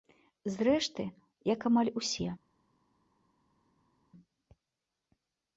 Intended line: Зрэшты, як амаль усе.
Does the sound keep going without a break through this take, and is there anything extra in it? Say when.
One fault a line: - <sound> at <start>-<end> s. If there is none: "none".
none